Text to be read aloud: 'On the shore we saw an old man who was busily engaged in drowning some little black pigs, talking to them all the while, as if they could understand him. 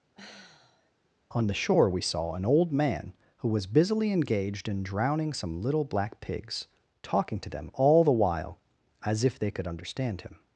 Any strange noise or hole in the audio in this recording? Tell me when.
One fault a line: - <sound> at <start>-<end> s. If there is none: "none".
- sigh at 0.1-0.9 s